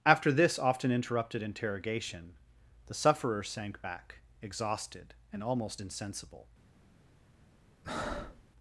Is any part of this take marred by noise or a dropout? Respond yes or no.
yes